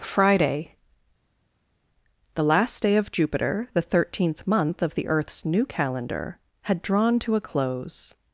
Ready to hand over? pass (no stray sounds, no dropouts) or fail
pass